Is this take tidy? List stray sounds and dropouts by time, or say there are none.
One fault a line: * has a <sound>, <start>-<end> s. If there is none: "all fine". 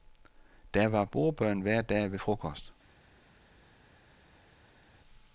all fine